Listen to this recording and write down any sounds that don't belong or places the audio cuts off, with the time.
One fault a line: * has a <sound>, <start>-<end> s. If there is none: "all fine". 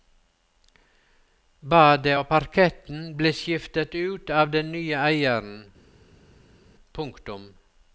all fine